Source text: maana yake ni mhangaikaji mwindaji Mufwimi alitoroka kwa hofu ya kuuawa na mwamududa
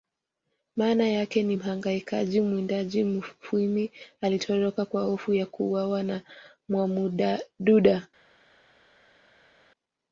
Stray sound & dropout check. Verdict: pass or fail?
pass